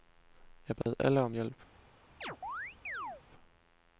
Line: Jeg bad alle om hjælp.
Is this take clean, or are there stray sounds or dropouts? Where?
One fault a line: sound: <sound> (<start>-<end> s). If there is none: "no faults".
sound: dropout (0.8-0.9 s)
sound: chirp (2.2-3.2 s)